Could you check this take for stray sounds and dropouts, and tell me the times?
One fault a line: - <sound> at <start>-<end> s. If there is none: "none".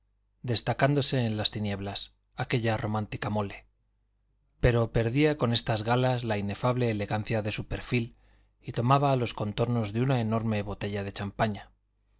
none